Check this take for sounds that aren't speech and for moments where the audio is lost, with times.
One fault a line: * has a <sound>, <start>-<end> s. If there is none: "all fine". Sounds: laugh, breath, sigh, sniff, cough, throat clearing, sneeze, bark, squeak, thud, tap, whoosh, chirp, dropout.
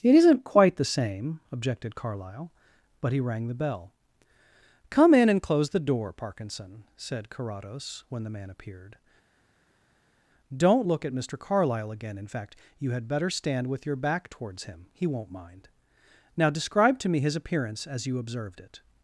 all fine